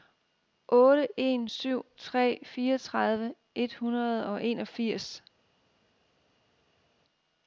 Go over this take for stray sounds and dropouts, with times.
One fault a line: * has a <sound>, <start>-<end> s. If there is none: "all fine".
all fine